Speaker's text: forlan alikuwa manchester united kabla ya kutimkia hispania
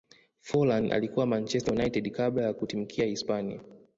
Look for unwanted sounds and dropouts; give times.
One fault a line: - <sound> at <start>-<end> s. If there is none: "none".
none